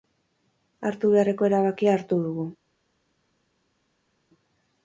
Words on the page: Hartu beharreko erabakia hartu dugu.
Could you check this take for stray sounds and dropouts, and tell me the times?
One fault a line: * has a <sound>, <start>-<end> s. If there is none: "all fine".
all fine